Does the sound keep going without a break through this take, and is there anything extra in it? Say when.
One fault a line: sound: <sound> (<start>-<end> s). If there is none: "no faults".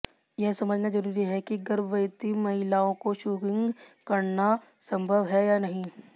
no faults